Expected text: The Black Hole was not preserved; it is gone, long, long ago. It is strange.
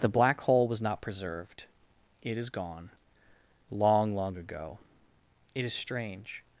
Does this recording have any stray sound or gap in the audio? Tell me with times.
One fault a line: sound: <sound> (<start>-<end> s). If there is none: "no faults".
no faults